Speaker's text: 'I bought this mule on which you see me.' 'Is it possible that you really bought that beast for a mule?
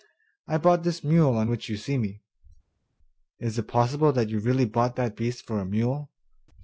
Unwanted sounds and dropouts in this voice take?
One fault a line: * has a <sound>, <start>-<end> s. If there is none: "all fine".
all fine